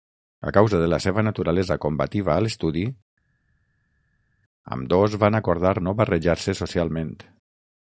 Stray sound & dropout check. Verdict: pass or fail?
pass